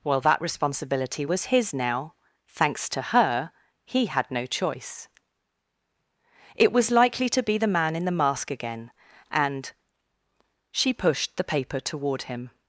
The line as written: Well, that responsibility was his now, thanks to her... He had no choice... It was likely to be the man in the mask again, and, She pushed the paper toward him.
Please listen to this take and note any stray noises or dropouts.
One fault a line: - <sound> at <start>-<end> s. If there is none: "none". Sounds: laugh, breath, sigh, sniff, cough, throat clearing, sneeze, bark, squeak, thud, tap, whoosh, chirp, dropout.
none